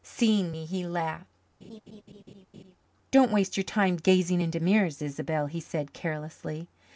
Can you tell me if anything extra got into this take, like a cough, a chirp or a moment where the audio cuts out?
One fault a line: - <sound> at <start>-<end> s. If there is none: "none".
- laugh at 1.6-2.8 s